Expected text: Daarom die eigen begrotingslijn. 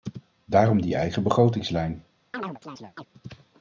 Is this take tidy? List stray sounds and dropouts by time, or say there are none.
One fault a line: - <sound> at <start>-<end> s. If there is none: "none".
- chirp at 2.3-3.1 s